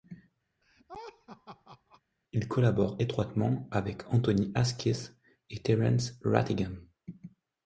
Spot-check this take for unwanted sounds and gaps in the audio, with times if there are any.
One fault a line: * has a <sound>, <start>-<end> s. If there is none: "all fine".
* has a laugh, 0.6-2.0 s